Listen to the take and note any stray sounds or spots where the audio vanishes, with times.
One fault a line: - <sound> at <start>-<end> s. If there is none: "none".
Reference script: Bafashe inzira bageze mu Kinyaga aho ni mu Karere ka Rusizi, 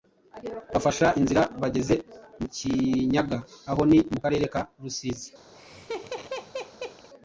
- laugh at 5.5-7.1 s